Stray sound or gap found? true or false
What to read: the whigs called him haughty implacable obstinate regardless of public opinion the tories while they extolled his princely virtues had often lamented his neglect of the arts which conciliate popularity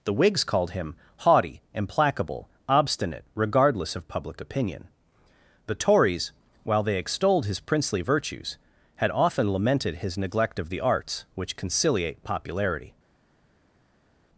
false